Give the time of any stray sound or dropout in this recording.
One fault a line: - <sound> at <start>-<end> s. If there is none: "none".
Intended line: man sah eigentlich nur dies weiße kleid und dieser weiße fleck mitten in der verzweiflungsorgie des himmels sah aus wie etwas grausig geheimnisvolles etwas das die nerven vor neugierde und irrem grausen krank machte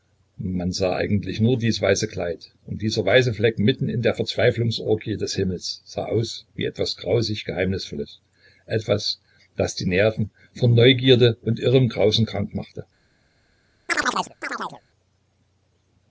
- chirp at 13.9-14.8 s